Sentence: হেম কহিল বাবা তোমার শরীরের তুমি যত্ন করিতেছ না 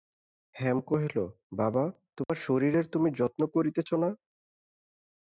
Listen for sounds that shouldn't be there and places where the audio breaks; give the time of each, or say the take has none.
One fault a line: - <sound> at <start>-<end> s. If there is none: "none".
- dropout at 2.2-2.3 s